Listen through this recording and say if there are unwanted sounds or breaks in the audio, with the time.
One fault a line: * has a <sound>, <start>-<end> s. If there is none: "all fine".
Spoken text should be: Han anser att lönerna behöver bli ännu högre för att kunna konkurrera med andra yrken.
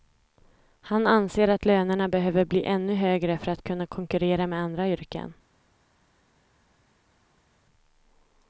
all fine